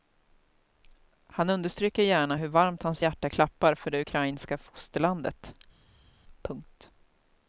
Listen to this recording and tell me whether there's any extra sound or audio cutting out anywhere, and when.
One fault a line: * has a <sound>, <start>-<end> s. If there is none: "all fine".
all fine